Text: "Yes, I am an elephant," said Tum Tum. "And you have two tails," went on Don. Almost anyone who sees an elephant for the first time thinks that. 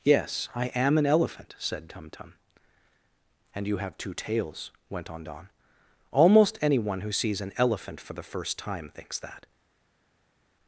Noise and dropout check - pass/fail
pass